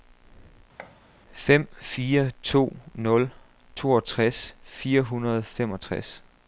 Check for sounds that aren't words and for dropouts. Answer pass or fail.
fail